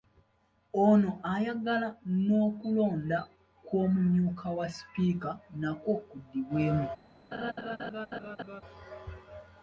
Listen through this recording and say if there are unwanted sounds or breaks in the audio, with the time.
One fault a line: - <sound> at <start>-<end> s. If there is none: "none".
- laugh at 7.3-8.6 s